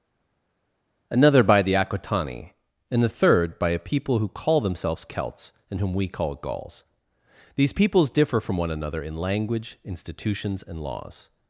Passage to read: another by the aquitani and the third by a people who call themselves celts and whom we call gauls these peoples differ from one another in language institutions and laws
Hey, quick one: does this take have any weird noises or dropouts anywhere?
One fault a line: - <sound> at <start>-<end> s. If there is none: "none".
none